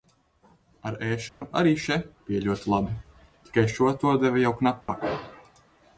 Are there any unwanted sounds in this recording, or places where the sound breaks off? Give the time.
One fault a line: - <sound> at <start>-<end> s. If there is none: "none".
- dropout at 1.3-1.4 s
- dropout at 4.8-4.9 s